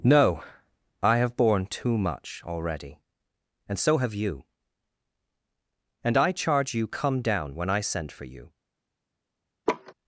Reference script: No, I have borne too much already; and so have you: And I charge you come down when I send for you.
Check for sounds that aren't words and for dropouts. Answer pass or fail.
fail